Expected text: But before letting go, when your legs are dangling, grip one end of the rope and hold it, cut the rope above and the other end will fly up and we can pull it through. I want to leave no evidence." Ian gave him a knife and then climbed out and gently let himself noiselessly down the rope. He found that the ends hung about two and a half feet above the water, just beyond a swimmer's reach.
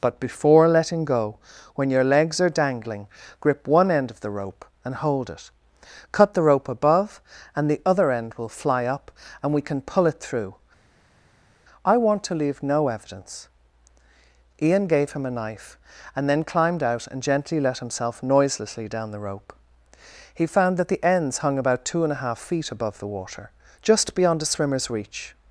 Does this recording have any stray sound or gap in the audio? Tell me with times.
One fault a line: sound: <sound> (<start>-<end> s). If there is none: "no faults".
no faults